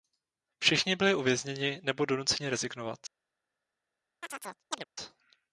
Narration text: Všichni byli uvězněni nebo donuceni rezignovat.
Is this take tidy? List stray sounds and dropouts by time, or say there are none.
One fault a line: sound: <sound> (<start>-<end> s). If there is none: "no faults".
sound: chirp (4.2-4.8 s)